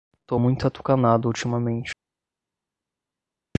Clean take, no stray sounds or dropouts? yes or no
yes